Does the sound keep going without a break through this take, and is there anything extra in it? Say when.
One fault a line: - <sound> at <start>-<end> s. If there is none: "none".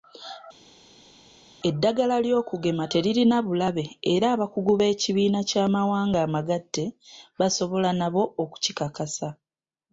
none